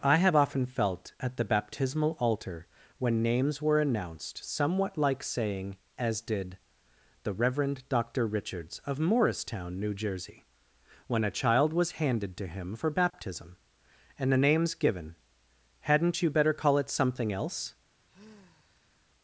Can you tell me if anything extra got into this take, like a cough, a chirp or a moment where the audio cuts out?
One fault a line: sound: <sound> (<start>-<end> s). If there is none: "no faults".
sound: sigh (18.1-19.1 s)